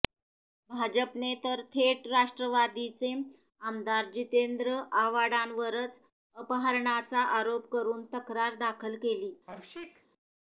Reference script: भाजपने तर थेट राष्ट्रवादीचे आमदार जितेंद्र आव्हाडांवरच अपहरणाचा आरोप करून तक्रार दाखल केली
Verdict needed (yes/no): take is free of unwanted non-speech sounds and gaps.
no